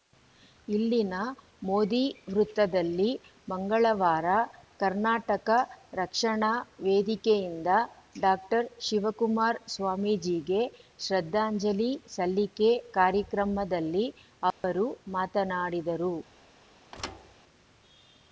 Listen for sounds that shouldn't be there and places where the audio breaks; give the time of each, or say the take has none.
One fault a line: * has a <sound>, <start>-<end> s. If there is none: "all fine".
* has a dropout, 14.5-14.6 s
* has a thud, 16.9-17.4 s